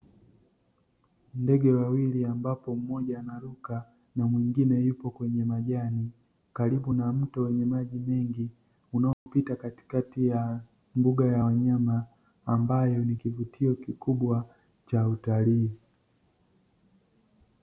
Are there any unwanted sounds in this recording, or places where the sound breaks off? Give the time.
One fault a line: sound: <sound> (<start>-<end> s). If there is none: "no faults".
sound: dropout (9.1-9.3 s)